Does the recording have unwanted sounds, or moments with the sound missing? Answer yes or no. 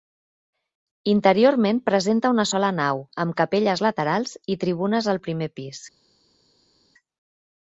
no